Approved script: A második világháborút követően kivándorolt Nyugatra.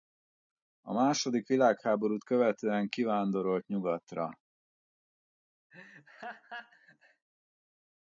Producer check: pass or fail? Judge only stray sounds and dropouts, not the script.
fail